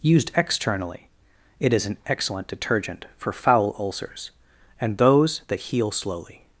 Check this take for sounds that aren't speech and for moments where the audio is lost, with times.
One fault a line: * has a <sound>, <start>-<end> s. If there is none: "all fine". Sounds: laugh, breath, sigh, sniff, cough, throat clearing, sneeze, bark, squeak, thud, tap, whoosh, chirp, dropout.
all fine